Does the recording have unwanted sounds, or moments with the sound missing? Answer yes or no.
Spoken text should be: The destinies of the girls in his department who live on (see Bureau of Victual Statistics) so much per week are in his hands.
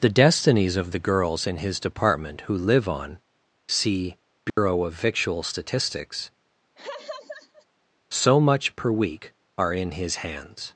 yes